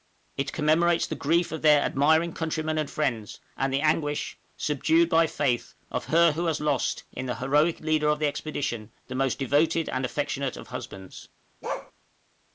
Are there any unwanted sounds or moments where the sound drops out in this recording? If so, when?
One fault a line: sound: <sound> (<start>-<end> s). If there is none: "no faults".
sound: bark (11.6-11.9 s)